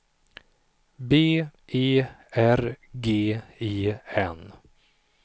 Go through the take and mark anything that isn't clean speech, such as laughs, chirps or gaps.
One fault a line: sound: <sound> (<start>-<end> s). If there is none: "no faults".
no faults